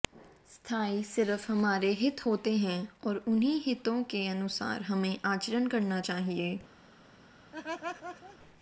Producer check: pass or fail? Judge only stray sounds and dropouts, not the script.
fail